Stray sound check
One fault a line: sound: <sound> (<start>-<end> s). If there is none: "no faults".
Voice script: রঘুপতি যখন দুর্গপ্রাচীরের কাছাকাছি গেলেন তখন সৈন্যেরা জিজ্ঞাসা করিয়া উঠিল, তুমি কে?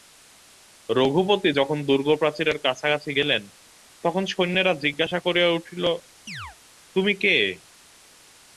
sound: chirp (6.3-6.6 s)